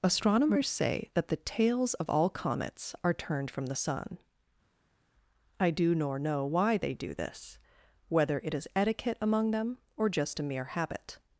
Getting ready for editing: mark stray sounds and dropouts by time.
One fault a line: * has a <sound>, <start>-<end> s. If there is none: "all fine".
all fine